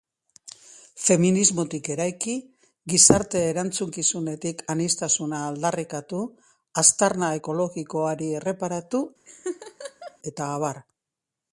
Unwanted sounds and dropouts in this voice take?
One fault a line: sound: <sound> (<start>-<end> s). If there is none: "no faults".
sound: laugh (9.3-10.2 s)